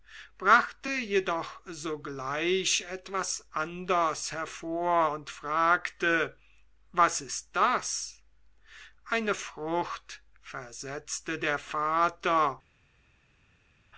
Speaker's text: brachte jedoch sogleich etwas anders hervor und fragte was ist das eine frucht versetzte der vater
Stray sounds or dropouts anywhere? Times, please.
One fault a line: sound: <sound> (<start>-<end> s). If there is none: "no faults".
no faults